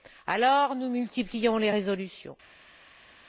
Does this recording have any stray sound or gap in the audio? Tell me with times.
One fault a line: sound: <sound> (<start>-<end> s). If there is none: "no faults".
no faults